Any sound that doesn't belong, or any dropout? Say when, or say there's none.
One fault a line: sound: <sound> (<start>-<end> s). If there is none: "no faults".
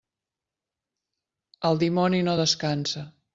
no faults